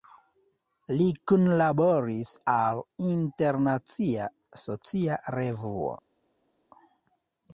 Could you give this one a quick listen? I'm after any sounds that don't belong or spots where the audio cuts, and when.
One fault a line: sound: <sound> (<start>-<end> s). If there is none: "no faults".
no faults